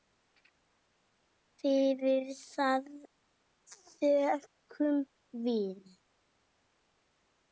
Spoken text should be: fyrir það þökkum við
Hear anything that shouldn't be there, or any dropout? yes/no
no